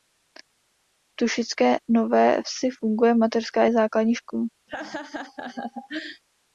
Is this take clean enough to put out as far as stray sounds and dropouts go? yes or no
no